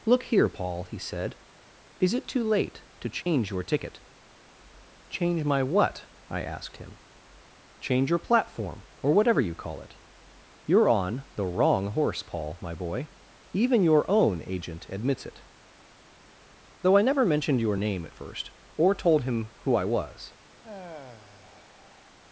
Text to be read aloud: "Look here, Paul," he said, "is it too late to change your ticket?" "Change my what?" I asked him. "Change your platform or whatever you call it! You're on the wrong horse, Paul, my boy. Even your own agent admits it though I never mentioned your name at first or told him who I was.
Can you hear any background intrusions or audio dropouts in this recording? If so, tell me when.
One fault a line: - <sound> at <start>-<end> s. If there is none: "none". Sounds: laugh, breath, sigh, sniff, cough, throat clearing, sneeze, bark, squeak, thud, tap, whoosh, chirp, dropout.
- dropout at 3.2-3.3 s
- sigh at 20.6-22.2 s